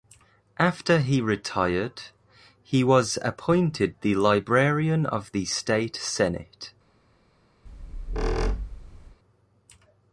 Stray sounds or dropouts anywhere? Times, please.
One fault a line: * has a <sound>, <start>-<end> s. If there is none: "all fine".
* has a squeak, 7.7-9.2 s